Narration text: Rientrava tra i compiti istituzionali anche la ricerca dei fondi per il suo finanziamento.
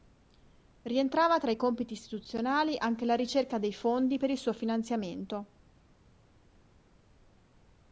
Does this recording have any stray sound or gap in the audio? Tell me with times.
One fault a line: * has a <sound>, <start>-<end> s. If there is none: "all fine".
all fine